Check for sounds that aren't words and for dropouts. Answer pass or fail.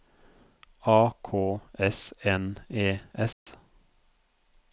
fail